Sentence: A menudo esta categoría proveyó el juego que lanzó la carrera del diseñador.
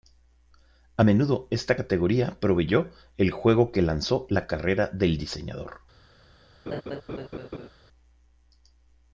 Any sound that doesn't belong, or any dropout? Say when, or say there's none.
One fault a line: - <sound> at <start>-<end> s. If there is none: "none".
- laugh at 6.7-7.7 s